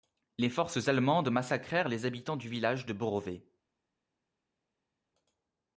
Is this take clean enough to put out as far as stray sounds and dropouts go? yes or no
yes